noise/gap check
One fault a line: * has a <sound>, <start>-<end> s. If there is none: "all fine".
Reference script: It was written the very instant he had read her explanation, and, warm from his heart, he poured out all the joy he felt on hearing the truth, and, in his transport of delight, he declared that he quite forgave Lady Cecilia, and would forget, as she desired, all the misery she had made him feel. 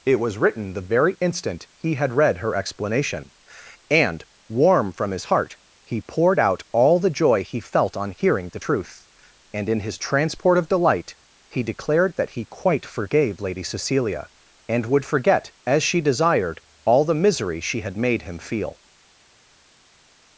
all fine